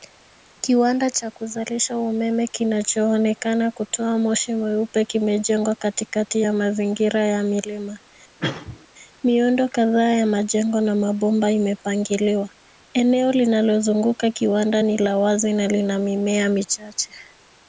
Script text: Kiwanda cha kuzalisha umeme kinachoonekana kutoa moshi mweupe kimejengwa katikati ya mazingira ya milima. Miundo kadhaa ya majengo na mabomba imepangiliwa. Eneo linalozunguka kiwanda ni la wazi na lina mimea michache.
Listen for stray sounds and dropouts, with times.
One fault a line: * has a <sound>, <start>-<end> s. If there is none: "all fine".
* has a cough, 8.4-8.9 s